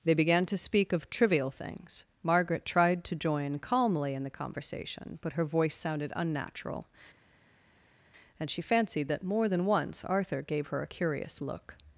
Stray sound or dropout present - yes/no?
no